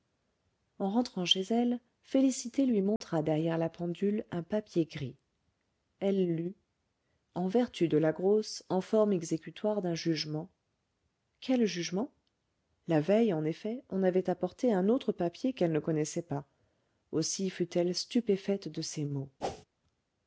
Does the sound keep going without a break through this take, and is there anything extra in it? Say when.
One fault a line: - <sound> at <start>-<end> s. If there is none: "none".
- dropout at 3.0-3.0 s
- whoosh at 19.4-19.7 s